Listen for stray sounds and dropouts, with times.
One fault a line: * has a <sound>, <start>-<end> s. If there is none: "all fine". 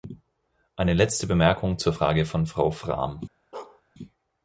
* has a bark, 3.5-3.8 s